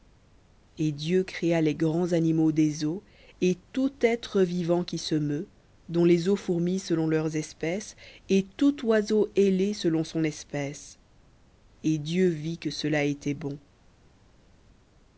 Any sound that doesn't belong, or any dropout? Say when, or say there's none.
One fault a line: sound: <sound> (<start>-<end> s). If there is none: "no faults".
no faults